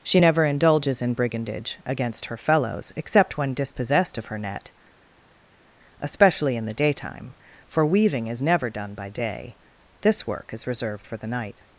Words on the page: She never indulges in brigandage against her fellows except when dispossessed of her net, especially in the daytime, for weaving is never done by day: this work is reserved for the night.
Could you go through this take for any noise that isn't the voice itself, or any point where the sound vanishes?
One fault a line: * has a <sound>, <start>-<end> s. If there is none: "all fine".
all fine